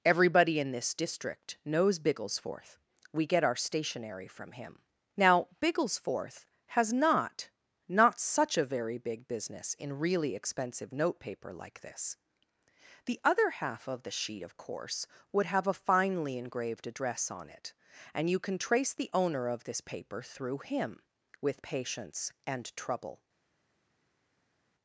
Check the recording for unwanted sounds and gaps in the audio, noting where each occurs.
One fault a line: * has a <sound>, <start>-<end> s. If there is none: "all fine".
all fine